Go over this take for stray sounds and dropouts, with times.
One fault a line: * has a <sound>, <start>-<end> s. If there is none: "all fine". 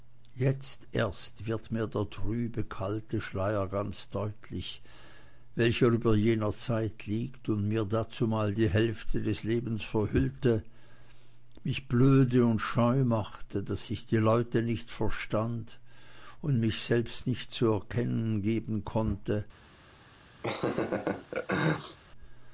* has a laugh, 20.4-22.0 s